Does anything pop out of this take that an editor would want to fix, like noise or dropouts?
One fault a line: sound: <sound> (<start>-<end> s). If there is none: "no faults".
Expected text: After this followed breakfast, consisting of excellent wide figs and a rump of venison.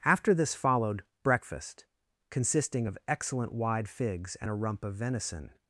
no faults